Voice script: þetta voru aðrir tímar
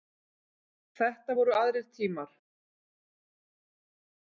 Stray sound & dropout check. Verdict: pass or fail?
pass